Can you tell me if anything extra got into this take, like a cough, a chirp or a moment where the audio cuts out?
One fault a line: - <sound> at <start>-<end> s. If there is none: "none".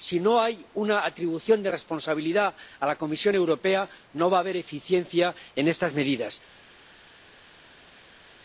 none